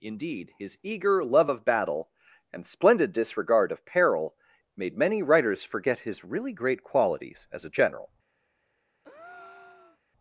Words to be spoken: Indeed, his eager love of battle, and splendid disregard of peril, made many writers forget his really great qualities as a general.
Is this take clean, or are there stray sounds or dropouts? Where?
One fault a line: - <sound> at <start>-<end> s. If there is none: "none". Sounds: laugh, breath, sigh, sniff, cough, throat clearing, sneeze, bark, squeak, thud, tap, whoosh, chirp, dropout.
- breath at 9.0-10.0 s